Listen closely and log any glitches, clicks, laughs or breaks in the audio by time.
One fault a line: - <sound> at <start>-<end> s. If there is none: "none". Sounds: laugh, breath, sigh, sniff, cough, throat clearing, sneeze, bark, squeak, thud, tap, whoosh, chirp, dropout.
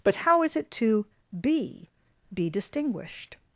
none